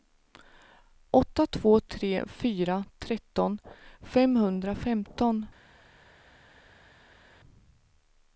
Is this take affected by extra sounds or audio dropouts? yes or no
no